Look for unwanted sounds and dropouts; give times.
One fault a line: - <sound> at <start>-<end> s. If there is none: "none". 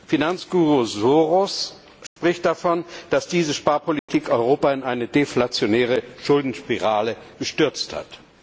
- dropout at 2.1-2.2 s
- dropout at 4.0-4.1 s